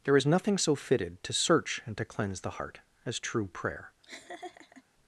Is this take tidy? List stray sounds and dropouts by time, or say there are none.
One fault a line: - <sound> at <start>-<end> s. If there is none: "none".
- laugh at 4.0-4.8 s